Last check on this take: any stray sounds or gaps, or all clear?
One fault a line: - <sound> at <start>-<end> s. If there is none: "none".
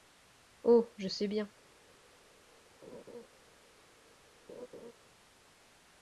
- laugh at 2.8-3.3 s
- laugh at 4.5-4.9 s